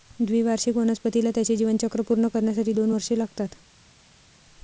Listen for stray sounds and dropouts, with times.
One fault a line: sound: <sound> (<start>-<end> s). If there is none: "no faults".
no faults